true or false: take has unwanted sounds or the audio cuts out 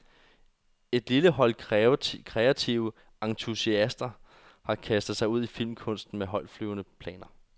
false